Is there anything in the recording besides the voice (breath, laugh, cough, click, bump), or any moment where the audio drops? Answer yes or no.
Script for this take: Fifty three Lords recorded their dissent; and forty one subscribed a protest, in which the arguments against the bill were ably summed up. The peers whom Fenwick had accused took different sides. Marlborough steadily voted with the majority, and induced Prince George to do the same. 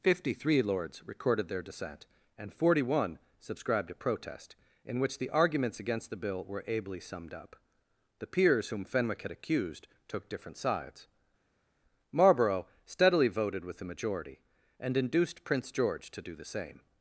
no